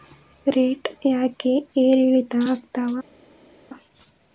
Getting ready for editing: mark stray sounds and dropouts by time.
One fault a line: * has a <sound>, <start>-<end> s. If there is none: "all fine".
all fine